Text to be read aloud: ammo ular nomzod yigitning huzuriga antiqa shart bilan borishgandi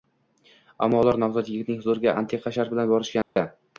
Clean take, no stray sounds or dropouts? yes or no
no